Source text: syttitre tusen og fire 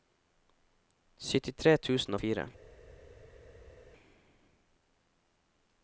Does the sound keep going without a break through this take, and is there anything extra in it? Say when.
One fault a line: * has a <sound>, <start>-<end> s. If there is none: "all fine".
all fine